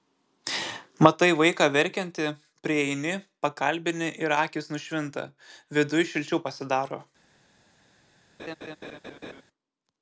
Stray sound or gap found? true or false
true